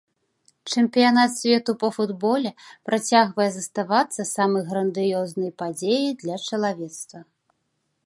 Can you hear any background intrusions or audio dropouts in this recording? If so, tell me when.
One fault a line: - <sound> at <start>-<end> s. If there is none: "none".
none